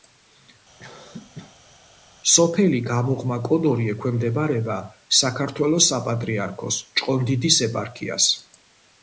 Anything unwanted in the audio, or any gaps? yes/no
yes